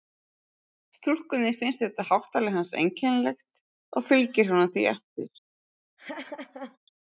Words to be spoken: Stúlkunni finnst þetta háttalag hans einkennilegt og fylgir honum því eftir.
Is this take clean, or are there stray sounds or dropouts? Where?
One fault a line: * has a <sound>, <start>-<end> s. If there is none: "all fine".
* has a laugh, 6.0-6.8 s